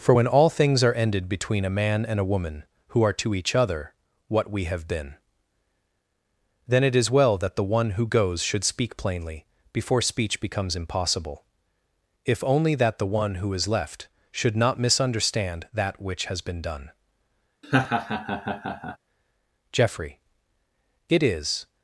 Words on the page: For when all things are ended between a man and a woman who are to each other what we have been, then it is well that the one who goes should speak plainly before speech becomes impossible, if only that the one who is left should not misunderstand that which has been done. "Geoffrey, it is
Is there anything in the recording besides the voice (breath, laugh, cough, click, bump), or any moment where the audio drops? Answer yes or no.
yes